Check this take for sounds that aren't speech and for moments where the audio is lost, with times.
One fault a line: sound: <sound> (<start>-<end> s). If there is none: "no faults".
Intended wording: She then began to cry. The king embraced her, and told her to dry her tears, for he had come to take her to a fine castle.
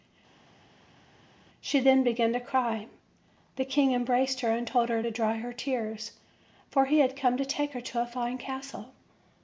no faults